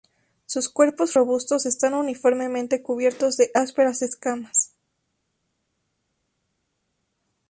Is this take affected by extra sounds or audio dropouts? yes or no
no